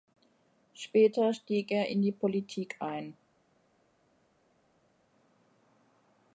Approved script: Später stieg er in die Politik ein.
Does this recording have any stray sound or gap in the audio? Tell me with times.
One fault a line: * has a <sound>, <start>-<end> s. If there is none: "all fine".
all fine